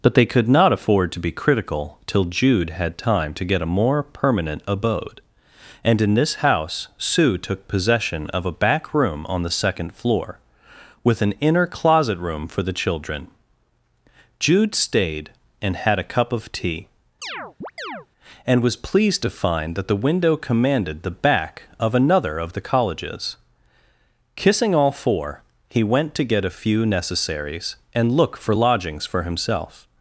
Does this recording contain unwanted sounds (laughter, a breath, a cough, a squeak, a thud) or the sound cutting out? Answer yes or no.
yes